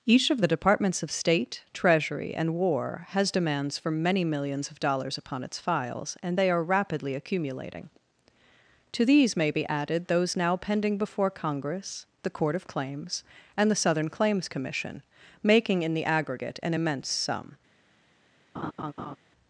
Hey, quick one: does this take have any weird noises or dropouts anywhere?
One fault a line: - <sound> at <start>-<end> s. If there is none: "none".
- laugh at 18.5-19.2 s